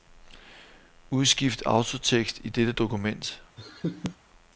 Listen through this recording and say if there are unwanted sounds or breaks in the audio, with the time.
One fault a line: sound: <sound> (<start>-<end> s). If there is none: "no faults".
sound: laugh (3.6-4.2 s)